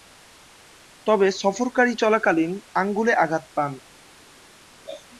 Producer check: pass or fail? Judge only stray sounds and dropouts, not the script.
pass